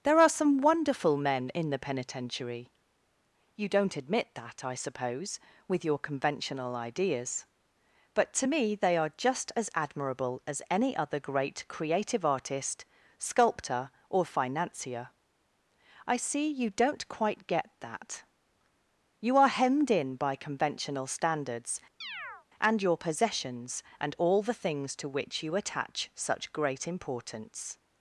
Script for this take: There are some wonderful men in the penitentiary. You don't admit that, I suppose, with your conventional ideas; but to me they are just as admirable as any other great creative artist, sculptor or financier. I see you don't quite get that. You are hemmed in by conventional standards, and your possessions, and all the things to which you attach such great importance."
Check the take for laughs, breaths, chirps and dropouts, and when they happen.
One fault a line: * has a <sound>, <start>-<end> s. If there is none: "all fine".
* has a chirp, 22.0-22.5 s